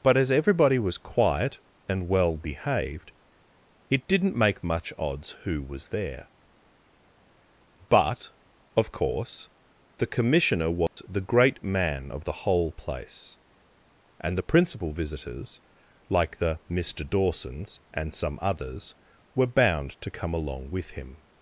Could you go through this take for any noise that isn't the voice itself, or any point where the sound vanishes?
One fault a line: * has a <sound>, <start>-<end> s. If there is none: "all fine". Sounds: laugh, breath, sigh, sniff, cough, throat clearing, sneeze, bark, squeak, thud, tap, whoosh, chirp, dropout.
* has a dropout, 10.9-11.0 s